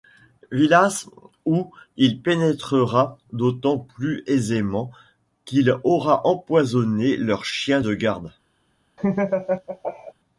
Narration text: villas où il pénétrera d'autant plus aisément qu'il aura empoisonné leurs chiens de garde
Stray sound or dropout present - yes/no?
yes